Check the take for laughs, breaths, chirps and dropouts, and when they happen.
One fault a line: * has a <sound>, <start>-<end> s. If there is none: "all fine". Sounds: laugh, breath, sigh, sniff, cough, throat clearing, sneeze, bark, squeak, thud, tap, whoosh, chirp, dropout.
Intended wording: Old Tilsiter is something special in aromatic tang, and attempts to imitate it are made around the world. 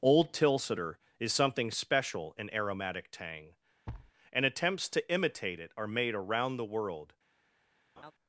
* has a thud, 3.9-4.1 s
* has a laugh, 8.0-8.1 s